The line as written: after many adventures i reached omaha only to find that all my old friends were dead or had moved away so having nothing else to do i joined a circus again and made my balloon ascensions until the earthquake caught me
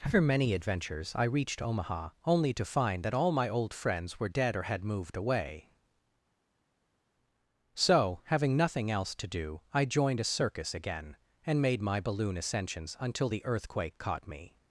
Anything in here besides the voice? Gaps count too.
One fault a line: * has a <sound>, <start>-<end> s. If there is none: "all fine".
all fine